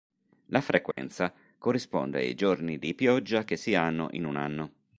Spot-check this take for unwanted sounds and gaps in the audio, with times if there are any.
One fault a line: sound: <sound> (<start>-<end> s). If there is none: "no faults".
sound: dropout (0.9-1.0 s)